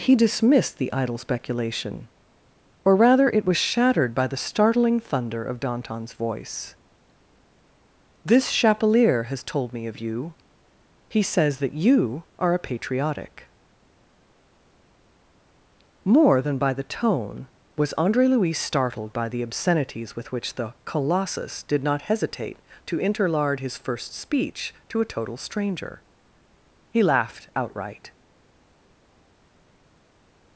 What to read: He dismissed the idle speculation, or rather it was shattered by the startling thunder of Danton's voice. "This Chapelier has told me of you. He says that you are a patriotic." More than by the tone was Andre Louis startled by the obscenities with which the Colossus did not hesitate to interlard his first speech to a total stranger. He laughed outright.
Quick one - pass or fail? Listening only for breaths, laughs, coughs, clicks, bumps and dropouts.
pass